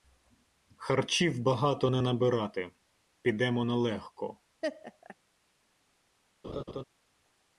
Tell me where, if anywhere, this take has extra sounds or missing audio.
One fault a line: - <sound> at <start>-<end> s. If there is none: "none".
- laugh at 4.6-5.2 s
- laugh at 6.4-6.8 s